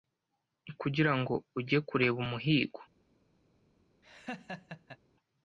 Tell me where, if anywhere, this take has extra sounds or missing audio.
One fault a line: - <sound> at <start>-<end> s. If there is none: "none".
- laugh at 4.0-5.0 s